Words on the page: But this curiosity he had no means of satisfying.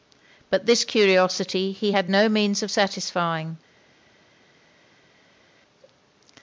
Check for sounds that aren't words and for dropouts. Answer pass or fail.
pass